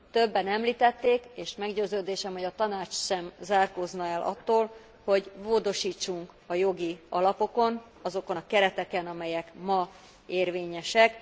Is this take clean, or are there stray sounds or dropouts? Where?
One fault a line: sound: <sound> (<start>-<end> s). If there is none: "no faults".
no faults